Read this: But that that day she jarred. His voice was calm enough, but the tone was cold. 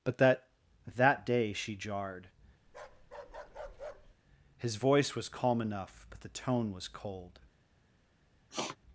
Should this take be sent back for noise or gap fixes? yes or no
yes